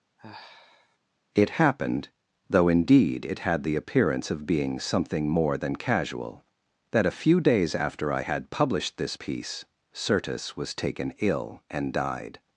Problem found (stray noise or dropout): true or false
true